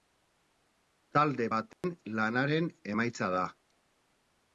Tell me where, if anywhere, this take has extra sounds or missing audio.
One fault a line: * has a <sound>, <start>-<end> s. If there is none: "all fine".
* has a dropout, 1.7-1.8 s